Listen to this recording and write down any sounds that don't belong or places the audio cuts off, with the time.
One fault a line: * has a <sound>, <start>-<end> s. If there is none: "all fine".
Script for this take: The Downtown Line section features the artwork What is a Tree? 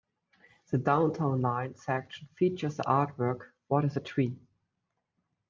all fine